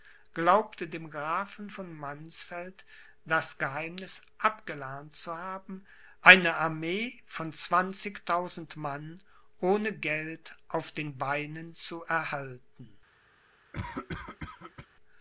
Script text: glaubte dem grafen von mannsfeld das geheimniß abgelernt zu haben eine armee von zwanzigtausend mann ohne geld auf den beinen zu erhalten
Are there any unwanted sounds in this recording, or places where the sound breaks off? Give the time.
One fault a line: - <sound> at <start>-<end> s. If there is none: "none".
- cough at 13.7-14.9 s